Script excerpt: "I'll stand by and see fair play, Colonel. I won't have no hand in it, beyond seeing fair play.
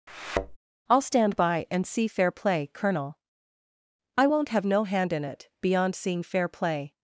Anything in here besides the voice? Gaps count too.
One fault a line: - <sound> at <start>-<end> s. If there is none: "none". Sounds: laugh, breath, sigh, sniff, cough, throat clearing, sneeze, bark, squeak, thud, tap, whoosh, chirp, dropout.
- thud at 0.1-0.6 s